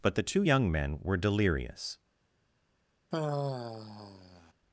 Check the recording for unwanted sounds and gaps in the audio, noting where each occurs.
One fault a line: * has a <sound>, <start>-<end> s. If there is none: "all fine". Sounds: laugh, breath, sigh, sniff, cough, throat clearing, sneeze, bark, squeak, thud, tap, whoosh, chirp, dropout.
* has a sigh, 3.1-4.5 s